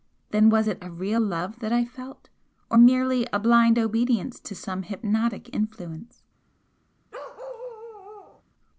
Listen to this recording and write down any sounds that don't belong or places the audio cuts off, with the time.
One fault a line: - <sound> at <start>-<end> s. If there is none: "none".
- bark at 7.1-8.4 s